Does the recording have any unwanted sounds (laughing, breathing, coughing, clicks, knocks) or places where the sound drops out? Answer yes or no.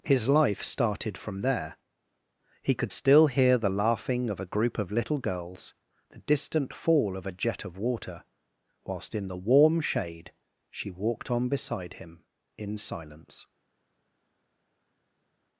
no